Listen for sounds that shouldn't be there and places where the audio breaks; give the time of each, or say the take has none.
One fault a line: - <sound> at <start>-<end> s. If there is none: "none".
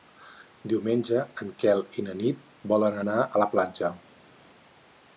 none